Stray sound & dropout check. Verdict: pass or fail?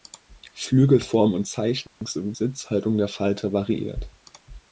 fail